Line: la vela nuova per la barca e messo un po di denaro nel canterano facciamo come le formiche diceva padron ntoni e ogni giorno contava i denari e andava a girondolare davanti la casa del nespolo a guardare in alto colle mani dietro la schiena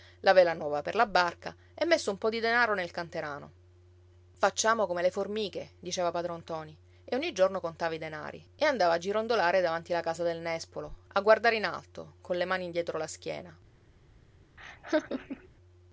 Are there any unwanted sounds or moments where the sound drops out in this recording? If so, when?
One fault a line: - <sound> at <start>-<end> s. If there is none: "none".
- laugh at 14.6-15.5 s